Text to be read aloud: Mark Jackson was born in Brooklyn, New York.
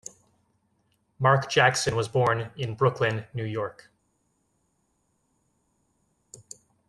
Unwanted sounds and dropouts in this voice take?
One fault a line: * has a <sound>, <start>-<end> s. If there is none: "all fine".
all fine